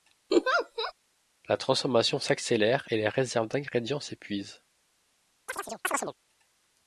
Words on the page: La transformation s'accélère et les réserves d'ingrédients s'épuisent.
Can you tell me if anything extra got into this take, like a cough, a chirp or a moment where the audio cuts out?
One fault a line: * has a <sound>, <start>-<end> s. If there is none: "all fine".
* has a laugh, 0.3-0.9 s
* has a chirp, 5.5-6.1 s